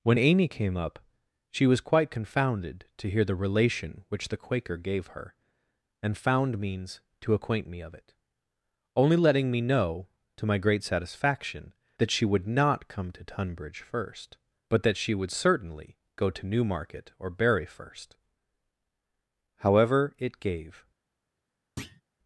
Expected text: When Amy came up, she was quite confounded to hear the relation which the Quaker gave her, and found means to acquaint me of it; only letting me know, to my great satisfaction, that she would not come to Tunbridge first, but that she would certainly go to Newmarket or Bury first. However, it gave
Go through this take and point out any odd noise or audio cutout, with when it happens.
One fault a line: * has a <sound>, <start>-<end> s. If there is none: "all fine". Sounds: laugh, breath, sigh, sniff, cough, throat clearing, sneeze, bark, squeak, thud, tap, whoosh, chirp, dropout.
* has a thud, 21.8-22.0 s